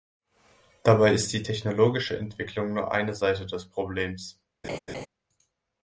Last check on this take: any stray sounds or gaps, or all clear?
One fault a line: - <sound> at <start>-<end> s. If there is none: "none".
- laugh at 4.6-5.1 s